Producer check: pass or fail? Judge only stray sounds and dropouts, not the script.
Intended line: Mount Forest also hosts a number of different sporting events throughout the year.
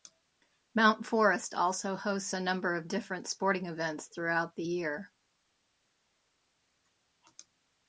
pass